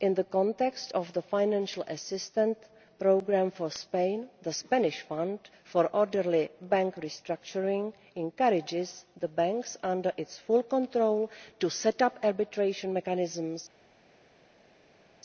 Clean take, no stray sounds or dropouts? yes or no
yes